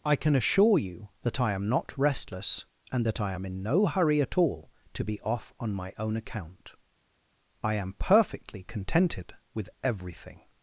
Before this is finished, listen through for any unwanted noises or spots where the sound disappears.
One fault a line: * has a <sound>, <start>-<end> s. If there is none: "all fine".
all fine